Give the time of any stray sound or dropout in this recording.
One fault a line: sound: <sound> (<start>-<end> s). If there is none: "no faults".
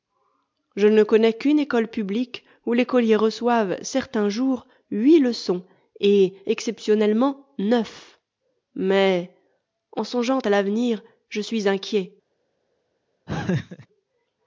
sound: laugh (13.3-13.9 s)